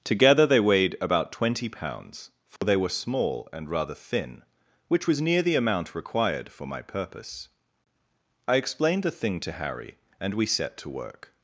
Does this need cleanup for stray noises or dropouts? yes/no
yes